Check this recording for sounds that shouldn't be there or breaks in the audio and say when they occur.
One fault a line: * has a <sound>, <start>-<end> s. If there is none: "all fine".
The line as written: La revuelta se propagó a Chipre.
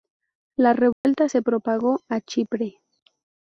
* has a dropout, 0.9-1.0 s